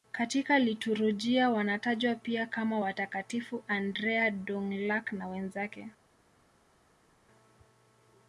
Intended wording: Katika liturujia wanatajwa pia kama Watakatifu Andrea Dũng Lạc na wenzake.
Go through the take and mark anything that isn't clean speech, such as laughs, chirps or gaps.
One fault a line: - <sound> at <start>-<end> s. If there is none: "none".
none